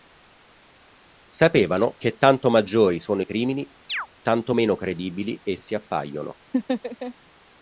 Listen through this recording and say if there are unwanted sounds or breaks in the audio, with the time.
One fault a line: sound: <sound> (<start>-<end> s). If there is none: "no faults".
sound: chirp (3.9-4.1 s)
sound: laugh (6.5-7.1 s)